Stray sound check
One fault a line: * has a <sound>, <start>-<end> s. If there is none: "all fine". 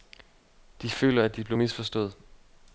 all fine